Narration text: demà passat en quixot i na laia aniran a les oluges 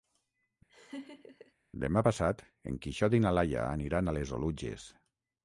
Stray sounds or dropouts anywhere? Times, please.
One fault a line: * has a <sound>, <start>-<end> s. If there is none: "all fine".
* has a laugh, 0.7-1.5 s